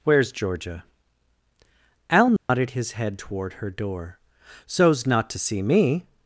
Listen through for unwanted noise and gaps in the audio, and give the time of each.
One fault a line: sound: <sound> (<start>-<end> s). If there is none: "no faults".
sound: dropout (2.4-2.5 s)